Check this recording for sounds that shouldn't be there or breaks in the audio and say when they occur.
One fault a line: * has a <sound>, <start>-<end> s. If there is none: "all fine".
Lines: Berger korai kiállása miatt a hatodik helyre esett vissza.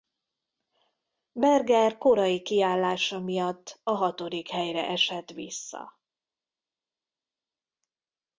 all fine